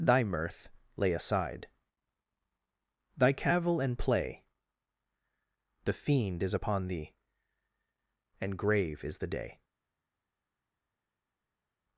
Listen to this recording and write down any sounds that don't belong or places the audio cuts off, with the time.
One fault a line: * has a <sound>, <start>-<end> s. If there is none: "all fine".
all fine